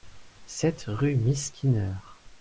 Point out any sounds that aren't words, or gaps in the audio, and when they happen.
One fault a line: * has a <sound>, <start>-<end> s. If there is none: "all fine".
all fine